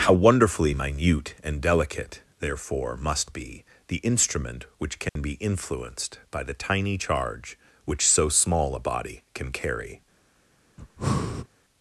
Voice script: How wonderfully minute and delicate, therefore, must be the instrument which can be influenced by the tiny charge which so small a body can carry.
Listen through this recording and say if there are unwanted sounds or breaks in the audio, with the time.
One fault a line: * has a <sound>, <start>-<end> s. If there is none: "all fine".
* has a dropout, 5.1-5.2 s
* has a breath, 10.8-11.5 s